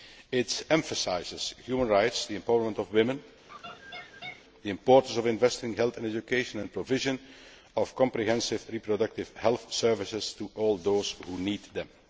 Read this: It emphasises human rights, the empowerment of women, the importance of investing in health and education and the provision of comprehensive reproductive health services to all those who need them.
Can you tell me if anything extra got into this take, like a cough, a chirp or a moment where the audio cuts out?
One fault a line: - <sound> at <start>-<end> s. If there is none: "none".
- laugh at 3.5-4.5 s